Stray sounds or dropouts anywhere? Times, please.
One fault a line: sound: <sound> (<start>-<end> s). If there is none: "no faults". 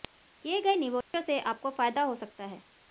sound: dropout (1.0-1.1 s)